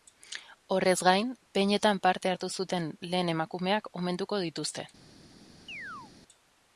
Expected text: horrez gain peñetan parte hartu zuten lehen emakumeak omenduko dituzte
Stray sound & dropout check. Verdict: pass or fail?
fail